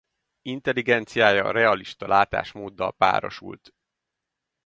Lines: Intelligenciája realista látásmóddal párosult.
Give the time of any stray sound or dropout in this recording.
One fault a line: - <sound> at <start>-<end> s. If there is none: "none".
none